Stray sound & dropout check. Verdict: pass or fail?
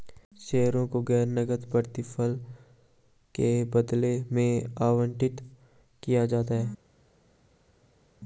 pass